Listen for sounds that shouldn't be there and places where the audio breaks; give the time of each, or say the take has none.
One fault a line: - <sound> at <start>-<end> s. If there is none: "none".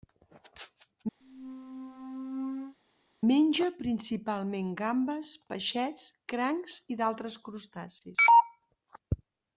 - squeak at 1.2-2.8 s